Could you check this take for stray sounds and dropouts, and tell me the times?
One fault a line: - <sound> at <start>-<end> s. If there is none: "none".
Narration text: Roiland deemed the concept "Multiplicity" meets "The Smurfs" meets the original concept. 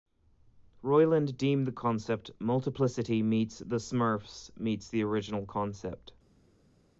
none